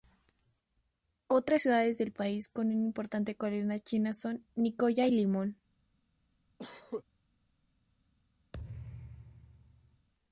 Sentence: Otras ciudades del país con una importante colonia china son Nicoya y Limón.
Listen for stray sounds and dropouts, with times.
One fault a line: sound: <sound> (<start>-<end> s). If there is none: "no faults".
sound: cough (6.6-7.0 s)
sound: thud (8.5-10.1 s)